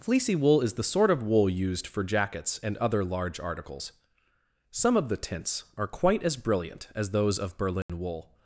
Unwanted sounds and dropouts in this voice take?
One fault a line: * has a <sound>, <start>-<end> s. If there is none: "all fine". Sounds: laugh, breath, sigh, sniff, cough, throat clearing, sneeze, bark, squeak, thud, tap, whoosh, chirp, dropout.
* has a dropout, 7.8-7.9 s